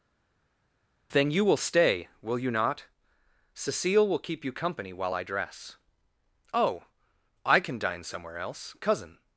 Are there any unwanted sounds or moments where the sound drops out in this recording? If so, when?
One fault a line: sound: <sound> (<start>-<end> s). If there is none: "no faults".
no faults